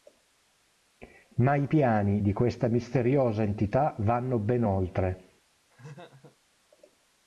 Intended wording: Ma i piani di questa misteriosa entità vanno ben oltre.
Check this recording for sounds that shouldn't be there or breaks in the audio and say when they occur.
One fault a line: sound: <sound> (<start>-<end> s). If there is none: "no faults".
sound: laugh (5.7-6.4 s)